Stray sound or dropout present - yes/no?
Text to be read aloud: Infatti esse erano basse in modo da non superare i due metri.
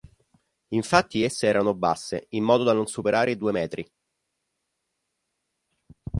no